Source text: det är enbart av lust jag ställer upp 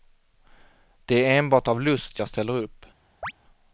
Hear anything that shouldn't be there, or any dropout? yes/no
yes